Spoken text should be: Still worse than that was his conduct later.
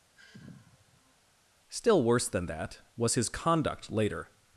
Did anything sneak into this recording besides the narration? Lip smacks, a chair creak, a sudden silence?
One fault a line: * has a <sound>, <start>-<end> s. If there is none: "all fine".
* has a sigh, 0.1-1.2 s